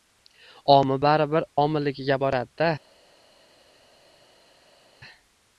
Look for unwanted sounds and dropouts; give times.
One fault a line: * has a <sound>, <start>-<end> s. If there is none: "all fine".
all fine